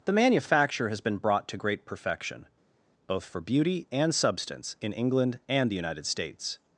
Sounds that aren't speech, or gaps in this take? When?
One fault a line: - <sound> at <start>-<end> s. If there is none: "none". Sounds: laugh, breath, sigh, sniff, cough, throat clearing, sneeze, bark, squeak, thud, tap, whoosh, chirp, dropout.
none